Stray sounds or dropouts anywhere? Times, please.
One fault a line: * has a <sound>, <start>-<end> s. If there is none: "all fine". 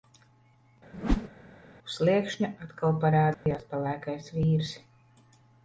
* has a whoosh, 0.9-1.3 s
* has a dropout, 3.3-3.5 s